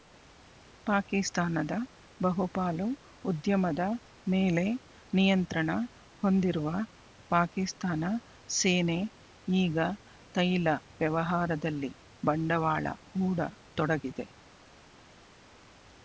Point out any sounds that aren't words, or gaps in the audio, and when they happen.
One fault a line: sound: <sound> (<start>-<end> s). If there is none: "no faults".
no faults